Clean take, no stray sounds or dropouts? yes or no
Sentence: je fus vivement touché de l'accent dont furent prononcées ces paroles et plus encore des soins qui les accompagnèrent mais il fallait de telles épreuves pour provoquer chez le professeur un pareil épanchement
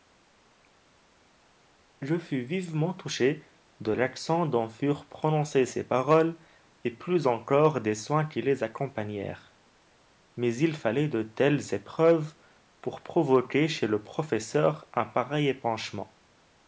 yes